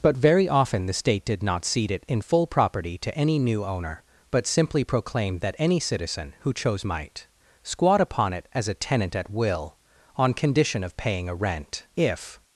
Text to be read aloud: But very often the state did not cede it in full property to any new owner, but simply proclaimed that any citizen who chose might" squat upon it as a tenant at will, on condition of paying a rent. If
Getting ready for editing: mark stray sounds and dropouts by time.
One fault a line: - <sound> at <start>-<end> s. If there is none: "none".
none